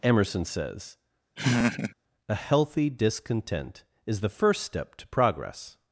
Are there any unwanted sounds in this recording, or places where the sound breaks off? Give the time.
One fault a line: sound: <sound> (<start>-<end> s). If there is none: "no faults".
sound: laugh (1.4-1.9 s)